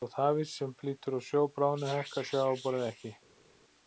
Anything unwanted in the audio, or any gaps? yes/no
no